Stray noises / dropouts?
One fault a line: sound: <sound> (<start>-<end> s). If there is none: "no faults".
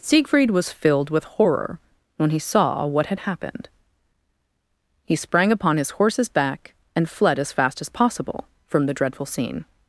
no faults